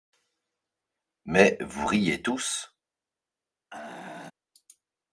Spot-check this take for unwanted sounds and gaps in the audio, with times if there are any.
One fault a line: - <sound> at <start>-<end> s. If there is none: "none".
- throat clearing at 3.7-4.3 s